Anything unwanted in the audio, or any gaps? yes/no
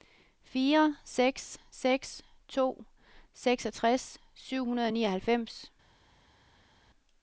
no